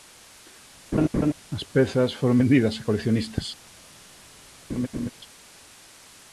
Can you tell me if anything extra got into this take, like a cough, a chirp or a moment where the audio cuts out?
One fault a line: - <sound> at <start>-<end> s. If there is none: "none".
- laugh at 0.9-1.3 s
- laugh at 4.7-5.1 s